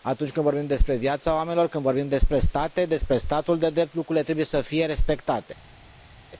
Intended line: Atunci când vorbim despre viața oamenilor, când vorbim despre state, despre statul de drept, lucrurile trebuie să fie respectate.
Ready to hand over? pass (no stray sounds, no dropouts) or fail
pass